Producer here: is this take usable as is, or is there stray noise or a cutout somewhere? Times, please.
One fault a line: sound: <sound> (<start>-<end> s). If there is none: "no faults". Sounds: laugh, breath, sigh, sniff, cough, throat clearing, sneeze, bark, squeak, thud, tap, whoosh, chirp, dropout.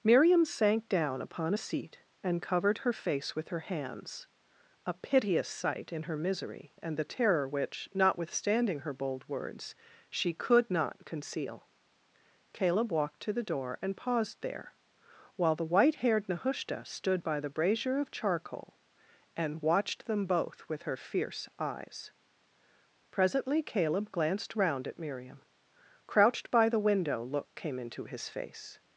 no faults